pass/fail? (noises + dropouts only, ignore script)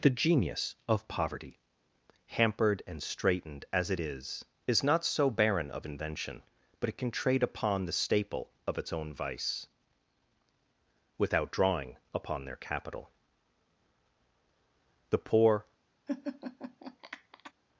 fail